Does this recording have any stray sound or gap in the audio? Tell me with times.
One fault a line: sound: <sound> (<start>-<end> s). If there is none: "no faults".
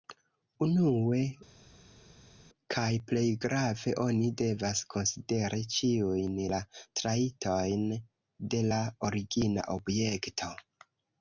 no faults